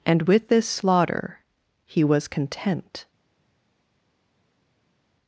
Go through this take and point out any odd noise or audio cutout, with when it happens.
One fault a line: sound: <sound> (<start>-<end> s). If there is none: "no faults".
no faults